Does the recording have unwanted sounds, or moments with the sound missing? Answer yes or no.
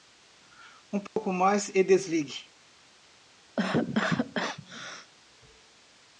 yes